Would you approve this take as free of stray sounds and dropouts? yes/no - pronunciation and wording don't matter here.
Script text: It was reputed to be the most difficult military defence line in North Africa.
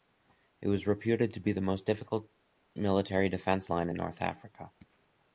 yes